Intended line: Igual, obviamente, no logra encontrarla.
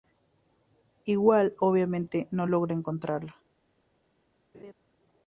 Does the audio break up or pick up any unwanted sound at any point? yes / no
yes